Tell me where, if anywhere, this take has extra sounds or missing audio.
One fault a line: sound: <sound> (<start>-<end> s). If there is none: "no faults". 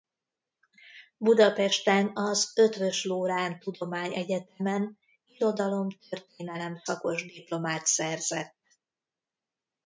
no faults